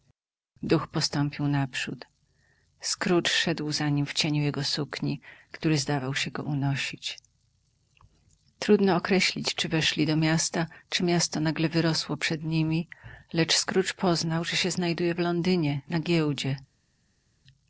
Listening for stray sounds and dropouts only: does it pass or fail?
pass